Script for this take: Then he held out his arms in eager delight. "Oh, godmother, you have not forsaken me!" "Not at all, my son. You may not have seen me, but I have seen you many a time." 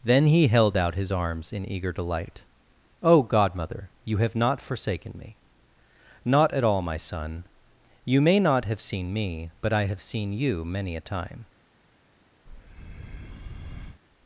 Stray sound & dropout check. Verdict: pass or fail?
fail